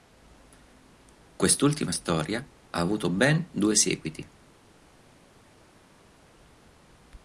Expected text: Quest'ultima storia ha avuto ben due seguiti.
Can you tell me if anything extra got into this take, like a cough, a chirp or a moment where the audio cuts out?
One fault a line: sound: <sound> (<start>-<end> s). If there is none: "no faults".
no faults